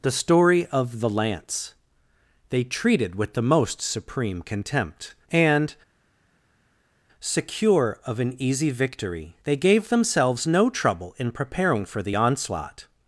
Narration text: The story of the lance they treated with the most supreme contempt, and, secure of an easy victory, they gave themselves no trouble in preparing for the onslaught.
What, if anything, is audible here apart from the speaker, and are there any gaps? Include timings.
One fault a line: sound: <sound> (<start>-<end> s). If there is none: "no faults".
no faults